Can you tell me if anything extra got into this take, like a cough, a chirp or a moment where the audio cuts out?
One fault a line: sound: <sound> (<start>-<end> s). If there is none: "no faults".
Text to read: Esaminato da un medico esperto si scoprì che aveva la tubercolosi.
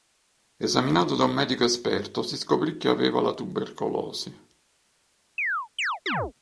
sound: chirp (5.4-6.3 s)